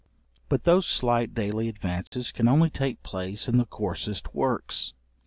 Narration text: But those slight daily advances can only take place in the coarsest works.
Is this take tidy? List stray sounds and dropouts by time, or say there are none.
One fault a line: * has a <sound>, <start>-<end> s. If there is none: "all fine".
* has a dropout, 2.1-2.1 s